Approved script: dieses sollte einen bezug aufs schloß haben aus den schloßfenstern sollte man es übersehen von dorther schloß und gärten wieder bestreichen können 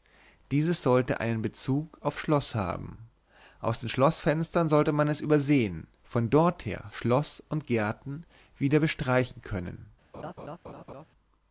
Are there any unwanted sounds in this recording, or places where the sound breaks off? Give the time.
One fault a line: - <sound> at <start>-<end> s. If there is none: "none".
- laugh at 10.1-11.1 s